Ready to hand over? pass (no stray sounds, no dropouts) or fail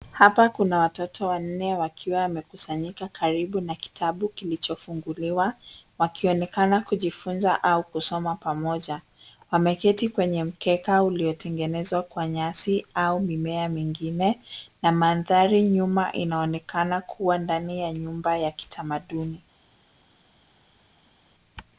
pass